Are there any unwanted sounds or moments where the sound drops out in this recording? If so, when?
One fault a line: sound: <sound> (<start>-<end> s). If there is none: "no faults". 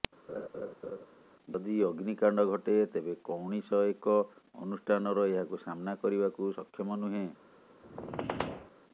sound: laugh (0.3-1.1 s)
sound: squeak (7.8-8.7 s)